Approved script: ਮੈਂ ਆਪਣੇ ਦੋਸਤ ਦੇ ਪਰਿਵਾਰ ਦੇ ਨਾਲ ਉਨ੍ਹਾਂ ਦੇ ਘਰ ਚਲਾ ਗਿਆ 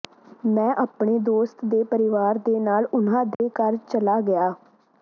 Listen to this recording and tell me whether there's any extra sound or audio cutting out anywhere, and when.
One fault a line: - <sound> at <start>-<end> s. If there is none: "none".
- dropout at 3.3-3.4 s